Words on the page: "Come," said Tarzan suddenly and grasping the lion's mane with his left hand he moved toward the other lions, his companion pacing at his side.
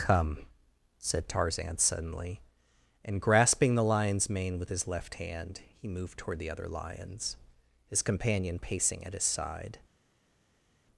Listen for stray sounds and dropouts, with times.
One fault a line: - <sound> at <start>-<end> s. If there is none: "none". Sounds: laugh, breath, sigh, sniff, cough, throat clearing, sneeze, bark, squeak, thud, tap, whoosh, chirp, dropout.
none